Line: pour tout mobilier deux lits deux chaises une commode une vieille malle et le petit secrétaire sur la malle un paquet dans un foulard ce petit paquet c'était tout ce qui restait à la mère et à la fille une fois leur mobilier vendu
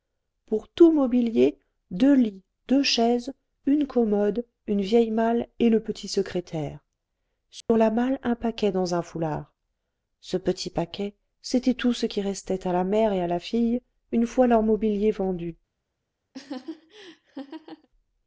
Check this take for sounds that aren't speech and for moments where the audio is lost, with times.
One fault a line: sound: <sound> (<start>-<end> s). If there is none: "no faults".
sound: dropout (7.6-7.7 s)
sound: laugh (16.3-17.9 s)